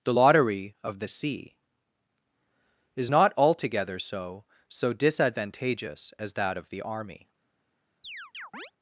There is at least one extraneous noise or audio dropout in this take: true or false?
true